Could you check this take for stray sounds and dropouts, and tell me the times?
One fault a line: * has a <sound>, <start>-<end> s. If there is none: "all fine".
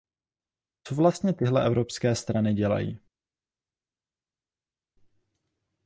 all fine